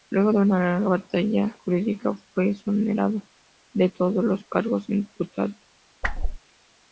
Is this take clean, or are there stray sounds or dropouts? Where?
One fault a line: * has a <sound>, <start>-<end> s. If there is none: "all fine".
* has a whoosh, 6.0-6.4 s